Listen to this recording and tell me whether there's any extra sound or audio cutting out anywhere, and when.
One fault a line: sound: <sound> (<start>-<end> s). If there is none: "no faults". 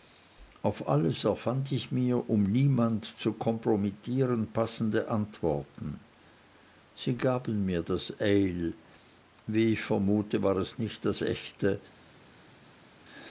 no faults